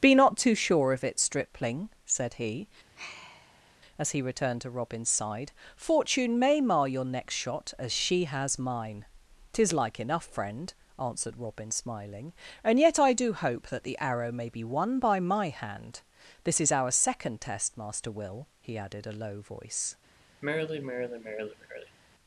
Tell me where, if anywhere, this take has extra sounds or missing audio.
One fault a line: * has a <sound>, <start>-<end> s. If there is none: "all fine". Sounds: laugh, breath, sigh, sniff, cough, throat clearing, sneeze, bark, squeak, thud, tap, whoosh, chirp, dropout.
* has a sigh, 3.0-3.8 s
* has a sigh, 20.4-22.0 s